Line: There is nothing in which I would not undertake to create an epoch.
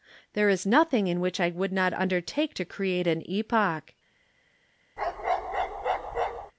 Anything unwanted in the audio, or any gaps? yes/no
yes